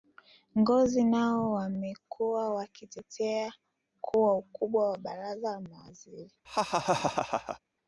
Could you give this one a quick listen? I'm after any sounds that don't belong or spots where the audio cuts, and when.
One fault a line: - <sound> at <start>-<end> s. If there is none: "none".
- laugh at 6.4-7.6 s